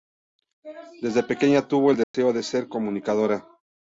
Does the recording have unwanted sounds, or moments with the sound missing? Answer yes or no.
yes